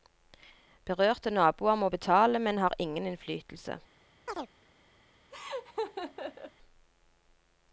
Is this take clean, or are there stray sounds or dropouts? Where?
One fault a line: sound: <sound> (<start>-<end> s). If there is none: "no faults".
sound: chirp (4.3-4.5 s)
sound: laugh (5.3-6.5 s)